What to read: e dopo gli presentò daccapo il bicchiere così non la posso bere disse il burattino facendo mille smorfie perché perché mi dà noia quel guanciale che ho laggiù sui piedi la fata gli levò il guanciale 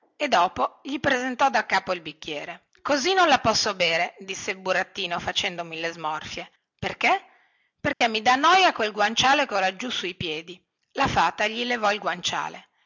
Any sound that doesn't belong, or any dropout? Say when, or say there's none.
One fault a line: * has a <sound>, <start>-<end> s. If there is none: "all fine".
* has a dropout, 7.9-8.0 s